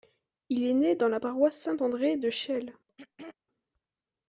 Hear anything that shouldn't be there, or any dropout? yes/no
yes